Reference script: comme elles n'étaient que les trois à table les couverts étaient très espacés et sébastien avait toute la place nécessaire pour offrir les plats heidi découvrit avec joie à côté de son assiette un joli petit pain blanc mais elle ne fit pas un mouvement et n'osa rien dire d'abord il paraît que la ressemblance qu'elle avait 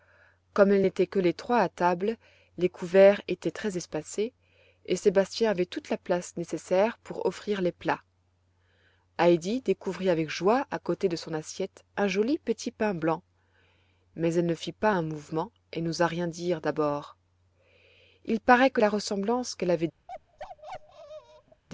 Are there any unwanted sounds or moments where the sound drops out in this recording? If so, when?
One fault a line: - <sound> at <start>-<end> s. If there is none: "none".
- bark at 20.1-21.6 s